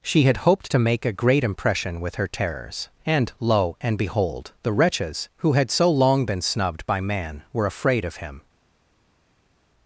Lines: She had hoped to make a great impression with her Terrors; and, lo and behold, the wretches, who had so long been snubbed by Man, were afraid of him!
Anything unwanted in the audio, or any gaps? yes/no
no